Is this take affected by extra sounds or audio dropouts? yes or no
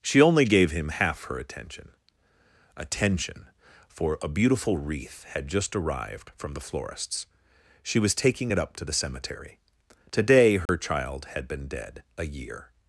yes